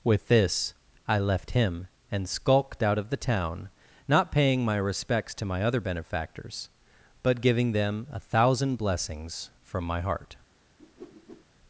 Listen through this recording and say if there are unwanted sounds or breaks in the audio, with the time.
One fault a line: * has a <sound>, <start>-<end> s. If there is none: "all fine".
* has a whoosh, 10.8-11.4 s